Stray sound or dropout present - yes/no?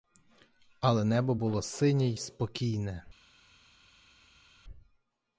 no